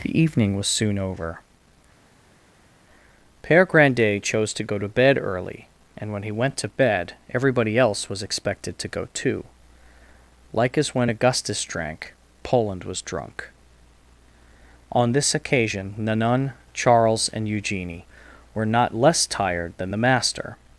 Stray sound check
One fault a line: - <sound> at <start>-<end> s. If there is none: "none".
none